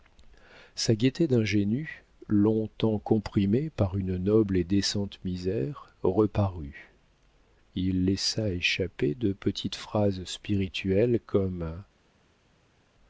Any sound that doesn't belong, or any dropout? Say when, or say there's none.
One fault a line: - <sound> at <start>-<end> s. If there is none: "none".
none